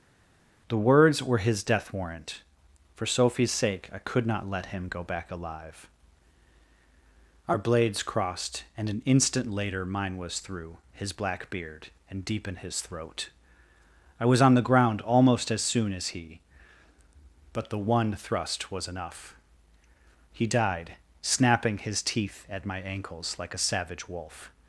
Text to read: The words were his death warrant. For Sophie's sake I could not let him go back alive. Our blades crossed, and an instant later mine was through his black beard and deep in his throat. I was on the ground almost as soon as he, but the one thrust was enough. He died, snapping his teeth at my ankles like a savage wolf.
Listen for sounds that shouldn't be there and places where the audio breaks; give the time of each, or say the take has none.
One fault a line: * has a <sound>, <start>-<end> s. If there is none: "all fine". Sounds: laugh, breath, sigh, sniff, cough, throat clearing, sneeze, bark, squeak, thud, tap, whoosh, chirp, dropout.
all fine